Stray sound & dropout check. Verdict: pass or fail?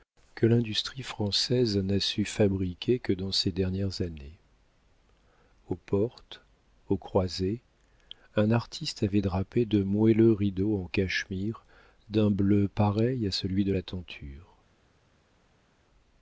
pass